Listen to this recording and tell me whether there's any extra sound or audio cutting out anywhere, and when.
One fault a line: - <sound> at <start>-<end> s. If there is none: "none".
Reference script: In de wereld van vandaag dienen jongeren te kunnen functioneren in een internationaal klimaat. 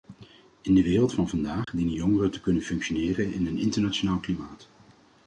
- dropout at 1.6-1.7 s